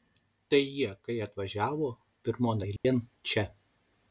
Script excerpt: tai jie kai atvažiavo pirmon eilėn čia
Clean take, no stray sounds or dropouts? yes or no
no